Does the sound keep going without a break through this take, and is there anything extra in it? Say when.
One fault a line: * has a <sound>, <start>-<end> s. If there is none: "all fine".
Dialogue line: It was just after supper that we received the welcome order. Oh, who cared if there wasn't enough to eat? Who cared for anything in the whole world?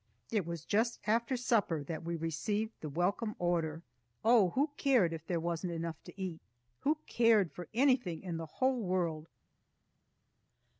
all fine